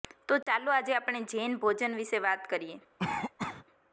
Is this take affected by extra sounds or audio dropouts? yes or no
yes